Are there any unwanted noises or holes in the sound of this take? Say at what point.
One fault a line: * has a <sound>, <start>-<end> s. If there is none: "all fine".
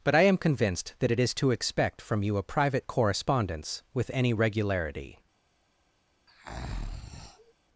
* has a breath, 6.3-7.5 s